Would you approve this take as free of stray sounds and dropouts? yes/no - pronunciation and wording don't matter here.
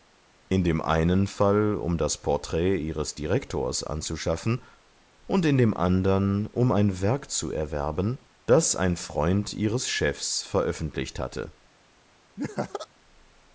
no